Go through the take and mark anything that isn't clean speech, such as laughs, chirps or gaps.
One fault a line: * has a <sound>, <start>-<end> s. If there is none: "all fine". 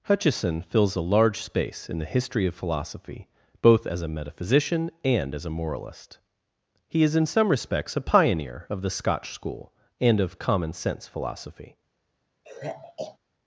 * has a sigh, 12.4-13.2 s